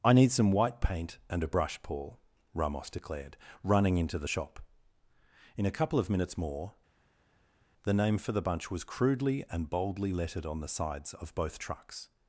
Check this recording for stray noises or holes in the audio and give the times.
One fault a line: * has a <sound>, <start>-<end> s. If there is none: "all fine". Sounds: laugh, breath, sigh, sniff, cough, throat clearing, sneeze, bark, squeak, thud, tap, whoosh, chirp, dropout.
all fine